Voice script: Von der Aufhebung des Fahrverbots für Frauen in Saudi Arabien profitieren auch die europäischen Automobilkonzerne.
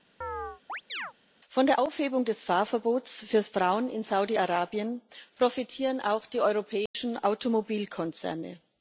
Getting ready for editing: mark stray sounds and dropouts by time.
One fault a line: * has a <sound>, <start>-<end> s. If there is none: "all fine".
* has a chirp, 0.2-1.1 s
* has a dropout, 6.9-6.9 s